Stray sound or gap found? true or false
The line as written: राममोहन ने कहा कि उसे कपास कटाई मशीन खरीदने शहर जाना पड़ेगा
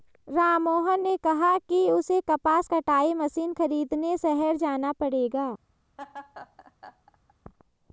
true